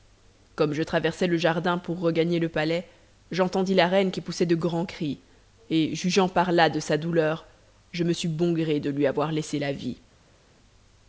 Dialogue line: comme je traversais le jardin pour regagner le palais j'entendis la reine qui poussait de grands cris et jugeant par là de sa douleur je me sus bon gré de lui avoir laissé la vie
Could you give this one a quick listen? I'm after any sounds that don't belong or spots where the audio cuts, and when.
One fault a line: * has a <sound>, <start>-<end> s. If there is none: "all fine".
all fine